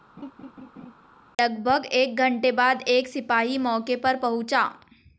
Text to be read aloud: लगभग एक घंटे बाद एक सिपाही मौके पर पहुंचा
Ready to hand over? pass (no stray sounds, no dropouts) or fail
fail